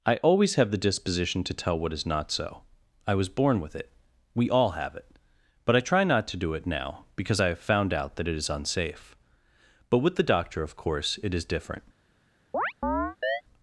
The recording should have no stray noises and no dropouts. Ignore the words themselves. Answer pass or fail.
fail